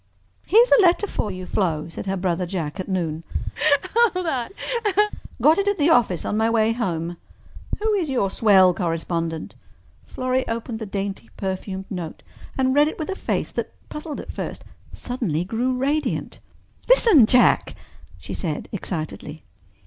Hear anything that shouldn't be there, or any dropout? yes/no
yes